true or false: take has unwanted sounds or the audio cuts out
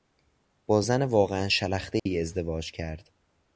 true